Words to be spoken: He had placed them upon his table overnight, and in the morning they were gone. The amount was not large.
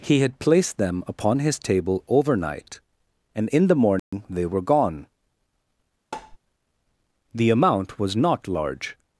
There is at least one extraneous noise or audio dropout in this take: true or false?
true